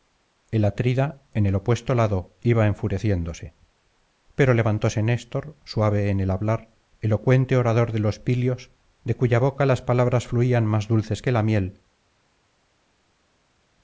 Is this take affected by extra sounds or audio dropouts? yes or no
no